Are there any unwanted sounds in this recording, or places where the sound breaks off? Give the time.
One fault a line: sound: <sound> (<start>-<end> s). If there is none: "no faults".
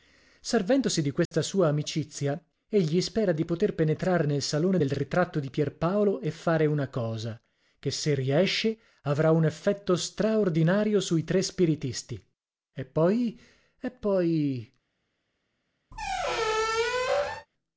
sound: dropout (1.3-1.3 s)
sound: squeak (15.9-17.5 s)